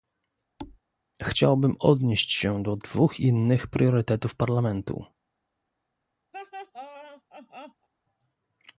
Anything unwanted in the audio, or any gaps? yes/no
yes